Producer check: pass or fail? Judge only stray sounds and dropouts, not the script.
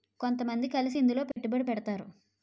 fail